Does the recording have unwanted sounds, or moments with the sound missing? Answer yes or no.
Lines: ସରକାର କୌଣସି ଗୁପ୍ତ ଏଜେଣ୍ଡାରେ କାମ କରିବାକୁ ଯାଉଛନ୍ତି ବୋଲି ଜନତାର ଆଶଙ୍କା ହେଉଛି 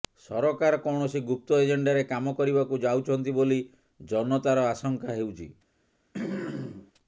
yes